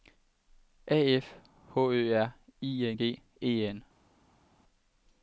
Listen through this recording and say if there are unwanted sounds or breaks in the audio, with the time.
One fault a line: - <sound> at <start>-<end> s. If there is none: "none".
none